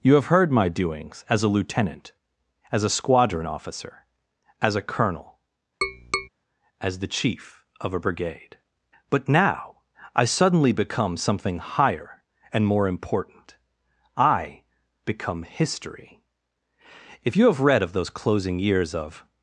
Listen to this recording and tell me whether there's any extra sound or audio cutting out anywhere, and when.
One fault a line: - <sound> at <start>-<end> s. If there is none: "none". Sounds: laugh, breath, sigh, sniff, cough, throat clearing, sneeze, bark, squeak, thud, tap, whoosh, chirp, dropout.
- tap at 5.8-6.3 s